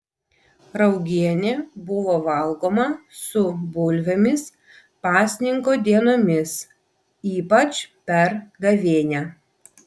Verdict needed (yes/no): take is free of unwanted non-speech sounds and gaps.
yes